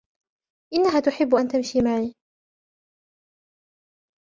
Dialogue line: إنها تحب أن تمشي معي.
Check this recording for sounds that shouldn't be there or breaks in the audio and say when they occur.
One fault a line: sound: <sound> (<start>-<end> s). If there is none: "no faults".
no faults